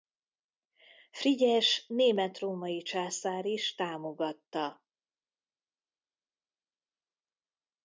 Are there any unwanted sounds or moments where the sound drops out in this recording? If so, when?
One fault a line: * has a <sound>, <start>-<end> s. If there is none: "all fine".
all fine